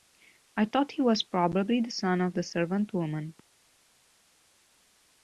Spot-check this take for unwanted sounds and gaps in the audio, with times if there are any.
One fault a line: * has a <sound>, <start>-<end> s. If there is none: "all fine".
all fine